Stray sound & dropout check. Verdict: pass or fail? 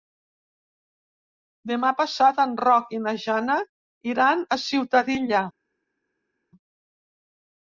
pass